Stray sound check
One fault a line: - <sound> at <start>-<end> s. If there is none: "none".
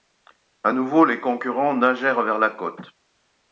none